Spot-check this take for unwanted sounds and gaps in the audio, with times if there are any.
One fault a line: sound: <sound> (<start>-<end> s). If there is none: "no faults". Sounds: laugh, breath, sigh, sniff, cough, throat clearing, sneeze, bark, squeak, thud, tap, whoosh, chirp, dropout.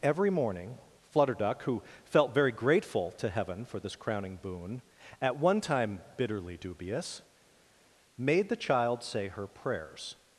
no faults